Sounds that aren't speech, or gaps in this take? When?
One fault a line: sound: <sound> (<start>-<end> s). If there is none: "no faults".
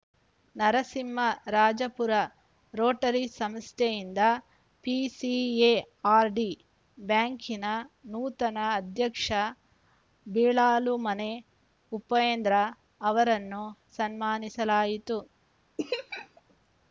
sound: laugh (15.8-16.4 s)